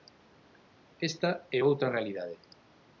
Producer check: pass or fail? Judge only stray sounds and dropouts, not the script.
pass